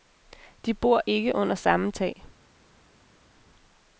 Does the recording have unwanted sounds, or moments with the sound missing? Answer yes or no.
no